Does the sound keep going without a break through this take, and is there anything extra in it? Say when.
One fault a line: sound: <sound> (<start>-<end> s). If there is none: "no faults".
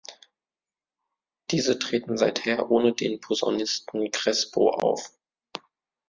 no faults